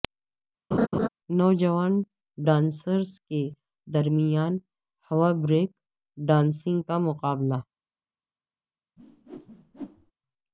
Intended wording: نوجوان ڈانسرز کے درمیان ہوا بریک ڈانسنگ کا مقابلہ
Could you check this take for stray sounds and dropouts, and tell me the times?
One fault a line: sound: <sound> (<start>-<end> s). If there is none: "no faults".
sound: laugh (0.7-1.1 s)
sound: whoosh (9.0-10.1 s)